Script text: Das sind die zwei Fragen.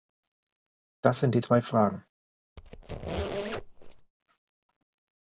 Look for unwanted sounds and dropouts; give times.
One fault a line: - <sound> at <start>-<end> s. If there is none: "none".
- squeak at 2.6-4.1 s